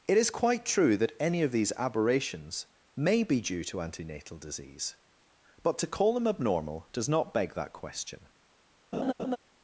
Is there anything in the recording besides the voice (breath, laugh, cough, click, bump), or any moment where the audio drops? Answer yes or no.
yes